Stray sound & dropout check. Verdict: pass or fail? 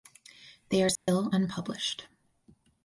fail